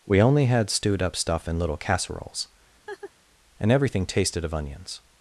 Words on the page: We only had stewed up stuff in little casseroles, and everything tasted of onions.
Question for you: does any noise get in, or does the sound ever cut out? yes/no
yes